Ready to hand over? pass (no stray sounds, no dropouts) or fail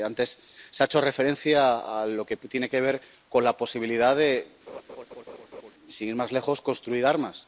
fail